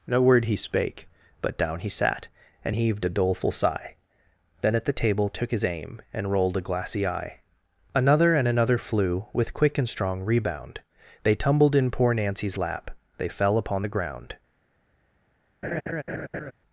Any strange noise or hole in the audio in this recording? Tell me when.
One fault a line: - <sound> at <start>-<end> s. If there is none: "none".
- laugh at 15.6-16.5 s